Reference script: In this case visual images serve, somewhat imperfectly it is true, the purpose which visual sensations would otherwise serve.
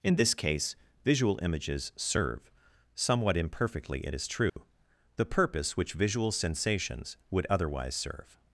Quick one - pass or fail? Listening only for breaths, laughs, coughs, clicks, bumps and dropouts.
fail